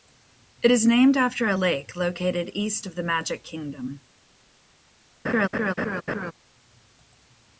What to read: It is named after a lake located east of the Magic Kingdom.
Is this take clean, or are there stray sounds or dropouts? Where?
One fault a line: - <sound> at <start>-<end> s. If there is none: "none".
- laugh at 5.2-6.3 s